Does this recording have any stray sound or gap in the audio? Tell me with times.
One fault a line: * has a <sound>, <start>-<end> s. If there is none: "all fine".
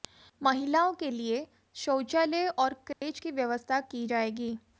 * has a dropout, 2.9-3.0 s